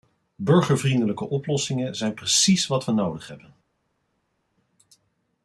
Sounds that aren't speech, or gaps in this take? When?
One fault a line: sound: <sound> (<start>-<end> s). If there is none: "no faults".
no faults